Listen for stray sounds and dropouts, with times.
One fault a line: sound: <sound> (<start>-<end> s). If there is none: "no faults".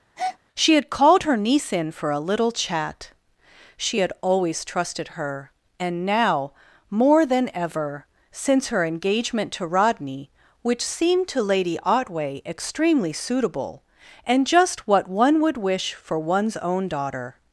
sound: breath (0.2-0.4 s)